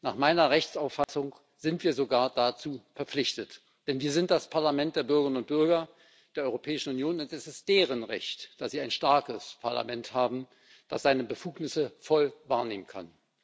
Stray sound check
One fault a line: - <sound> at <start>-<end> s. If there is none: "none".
- dropout at 1.0-1.1 s